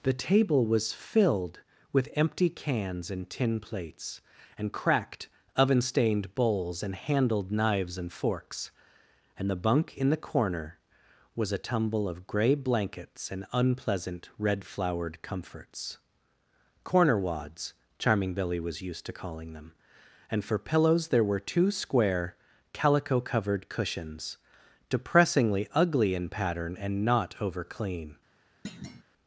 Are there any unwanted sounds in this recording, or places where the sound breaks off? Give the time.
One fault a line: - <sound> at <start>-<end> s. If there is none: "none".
- thud at 28.6-29.0 s